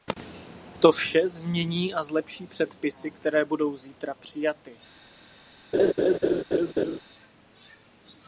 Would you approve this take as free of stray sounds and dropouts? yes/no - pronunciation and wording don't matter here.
no